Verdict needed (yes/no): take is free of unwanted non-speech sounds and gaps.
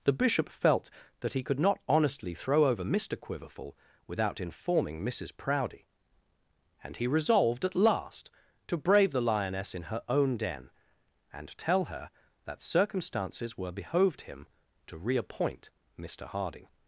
yes